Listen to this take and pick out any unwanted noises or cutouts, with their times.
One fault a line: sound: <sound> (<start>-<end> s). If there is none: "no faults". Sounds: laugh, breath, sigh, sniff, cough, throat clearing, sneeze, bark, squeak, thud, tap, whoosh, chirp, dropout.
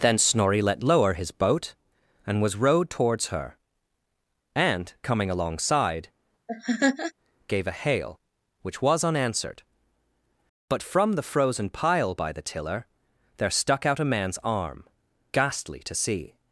sound: laugh (6.5-7.1 s)